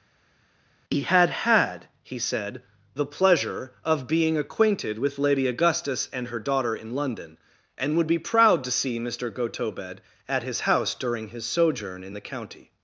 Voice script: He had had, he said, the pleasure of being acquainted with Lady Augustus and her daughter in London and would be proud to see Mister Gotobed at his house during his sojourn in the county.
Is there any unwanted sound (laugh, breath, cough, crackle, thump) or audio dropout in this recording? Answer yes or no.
no